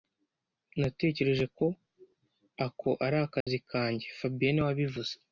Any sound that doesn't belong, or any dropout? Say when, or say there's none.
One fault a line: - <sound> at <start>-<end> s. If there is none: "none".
- dropout at 3.4-3.5 s